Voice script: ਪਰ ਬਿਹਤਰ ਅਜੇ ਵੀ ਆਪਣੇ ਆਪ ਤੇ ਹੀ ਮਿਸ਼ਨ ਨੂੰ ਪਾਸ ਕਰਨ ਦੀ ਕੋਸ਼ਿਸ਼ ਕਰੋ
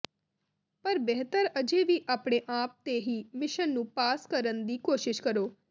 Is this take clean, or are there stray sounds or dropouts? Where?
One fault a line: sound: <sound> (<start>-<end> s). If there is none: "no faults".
no faults